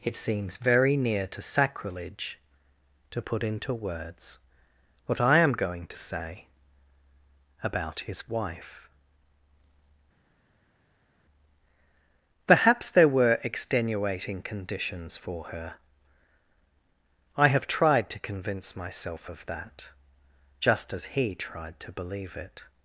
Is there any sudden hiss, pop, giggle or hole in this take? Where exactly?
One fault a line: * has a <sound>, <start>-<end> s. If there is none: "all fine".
all fine